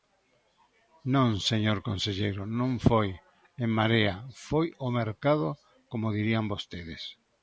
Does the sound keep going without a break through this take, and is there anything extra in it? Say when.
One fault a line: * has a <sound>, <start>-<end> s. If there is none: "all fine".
all fine